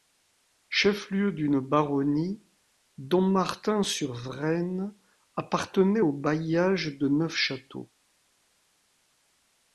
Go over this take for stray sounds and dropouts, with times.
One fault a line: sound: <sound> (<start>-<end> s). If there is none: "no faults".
no faults